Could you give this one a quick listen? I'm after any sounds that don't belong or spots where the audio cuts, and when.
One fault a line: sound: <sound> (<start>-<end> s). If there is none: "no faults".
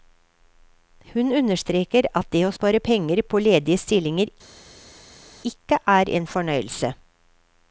no faults